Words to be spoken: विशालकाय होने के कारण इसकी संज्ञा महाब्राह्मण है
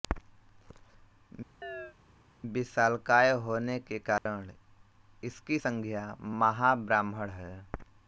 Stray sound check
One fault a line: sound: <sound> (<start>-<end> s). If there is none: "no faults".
sound: chirp (1.6-2.0 s)
sound: dropout (4.2-4.3 s)